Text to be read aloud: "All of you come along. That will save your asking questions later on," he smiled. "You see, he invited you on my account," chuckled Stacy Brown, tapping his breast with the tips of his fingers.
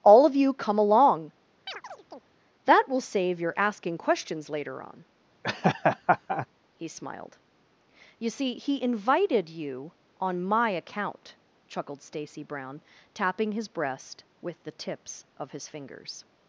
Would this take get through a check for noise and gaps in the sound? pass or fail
fail